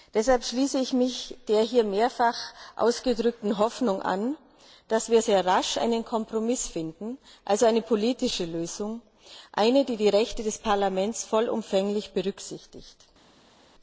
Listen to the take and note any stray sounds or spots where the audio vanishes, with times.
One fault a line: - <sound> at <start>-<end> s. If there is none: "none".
none